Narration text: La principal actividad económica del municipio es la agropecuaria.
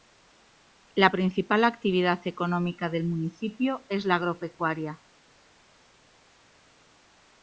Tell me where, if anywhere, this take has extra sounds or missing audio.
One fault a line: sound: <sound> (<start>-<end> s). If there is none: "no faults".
no faults